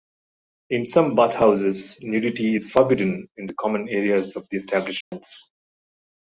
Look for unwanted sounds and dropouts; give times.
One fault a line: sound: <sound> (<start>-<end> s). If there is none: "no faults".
sound: dropout (5.0-5.1 s)